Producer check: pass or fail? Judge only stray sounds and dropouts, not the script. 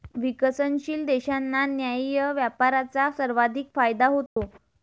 fail